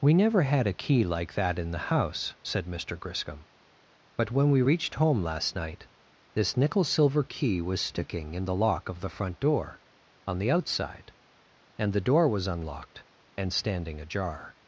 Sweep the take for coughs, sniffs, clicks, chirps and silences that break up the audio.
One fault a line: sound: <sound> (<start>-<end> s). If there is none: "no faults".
no faults